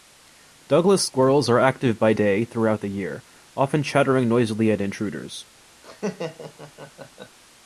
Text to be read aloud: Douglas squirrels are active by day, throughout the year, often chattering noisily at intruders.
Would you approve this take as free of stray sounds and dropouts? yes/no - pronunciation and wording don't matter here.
no